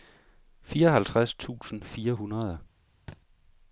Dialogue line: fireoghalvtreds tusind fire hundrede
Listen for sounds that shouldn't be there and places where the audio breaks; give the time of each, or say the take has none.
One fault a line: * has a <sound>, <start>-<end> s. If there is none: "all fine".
* has a thud, 3.1-3.2 s